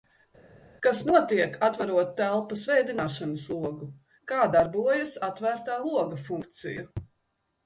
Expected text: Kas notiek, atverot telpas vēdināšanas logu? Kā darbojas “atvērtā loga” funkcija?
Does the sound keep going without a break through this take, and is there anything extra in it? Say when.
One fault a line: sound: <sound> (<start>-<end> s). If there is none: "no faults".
no faults